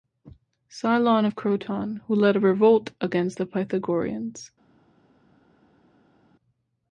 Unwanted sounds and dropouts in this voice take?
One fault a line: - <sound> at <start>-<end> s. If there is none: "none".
none